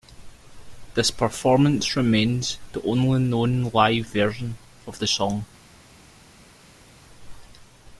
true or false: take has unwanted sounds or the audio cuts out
false